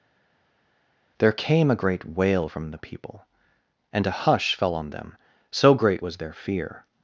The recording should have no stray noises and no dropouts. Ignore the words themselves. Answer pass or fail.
pass